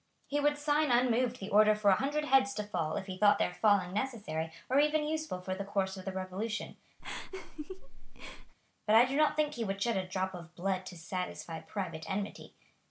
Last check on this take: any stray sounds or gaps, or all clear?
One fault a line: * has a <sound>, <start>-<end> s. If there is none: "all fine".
* has a laugh, 7.0-8.5 s